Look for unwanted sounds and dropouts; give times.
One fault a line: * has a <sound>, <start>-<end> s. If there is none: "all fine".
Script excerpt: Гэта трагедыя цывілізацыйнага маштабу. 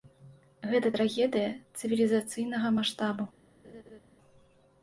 * has a laugh, 3.6-4.0 s